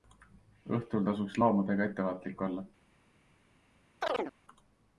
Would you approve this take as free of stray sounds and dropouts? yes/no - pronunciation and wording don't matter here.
no